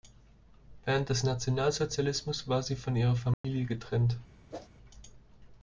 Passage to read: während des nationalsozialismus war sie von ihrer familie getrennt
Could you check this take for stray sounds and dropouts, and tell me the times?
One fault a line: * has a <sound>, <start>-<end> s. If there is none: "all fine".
* has a dropout, 3.3-3.4 s
* has a whoosh, 4.5-4.7 s